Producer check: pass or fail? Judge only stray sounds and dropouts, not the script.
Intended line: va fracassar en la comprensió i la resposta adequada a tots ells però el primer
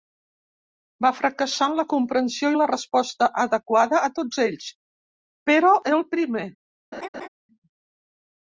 fail